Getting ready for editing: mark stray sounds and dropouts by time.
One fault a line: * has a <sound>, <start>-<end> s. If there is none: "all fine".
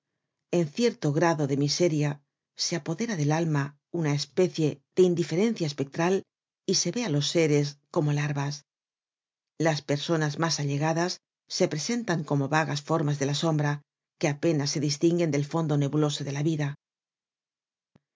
all fine